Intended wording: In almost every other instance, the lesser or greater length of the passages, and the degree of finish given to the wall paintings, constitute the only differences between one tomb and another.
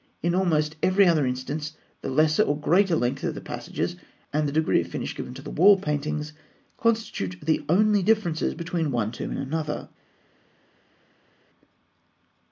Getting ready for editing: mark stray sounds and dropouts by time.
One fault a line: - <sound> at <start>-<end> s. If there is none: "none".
none